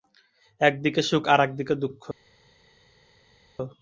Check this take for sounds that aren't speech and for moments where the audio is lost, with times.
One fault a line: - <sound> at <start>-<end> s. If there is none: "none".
none